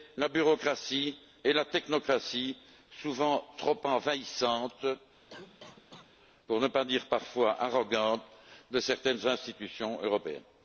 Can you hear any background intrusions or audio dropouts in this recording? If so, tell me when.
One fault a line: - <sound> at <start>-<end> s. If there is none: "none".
- cough at 5.3-6.1 s